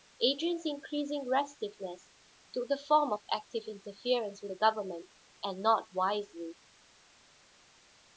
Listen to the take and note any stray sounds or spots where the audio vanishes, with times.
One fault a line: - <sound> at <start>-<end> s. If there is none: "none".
none